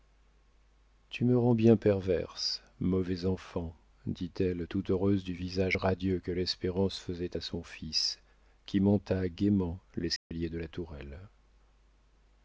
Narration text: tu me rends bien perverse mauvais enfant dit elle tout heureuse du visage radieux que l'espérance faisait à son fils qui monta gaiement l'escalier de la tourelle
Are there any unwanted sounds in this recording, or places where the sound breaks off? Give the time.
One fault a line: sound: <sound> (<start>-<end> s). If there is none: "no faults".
sound: dropout (10.2-10.3 s)